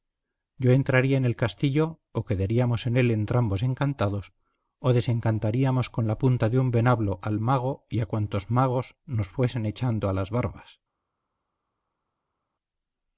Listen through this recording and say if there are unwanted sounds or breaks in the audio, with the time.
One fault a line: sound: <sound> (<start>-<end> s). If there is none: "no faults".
no faults